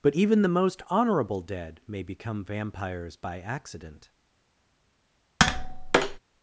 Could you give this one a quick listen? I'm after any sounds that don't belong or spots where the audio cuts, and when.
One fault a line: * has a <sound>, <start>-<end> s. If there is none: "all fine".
* has a tap, 5.4-6.2 s